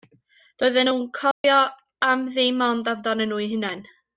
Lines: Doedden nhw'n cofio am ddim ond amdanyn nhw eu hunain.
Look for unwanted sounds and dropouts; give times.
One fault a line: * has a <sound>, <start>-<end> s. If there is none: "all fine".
* has a dropout, 1.3-1.4 s